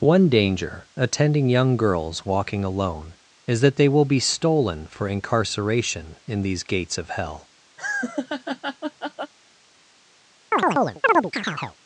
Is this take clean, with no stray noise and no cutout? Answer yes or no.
no